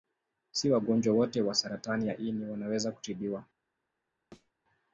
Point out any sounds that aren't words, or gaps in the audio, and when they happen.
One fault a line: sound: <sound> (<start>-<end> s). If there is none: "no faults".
sound: thud (4.3-4.5 s)